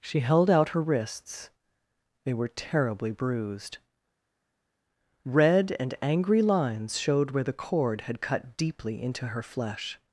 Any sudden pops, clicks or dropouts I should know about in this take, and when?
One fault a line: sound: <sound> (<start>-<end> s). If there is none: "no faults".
no faults